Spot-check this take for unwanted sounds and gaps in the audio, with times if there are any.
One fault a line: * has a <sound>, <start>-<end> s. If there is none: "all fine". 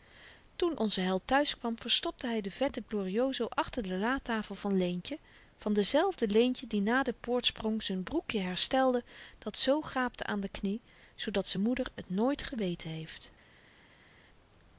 all fine